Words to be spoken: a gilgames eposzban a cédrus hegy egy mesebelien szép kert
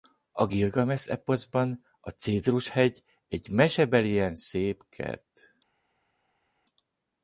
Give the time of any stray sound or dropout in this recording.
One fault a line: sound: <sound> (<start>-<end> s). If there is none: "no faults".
no faults